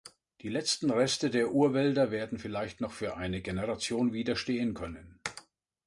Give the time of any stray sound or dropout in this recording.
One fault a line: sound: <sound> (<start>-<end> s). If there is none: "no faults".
no faults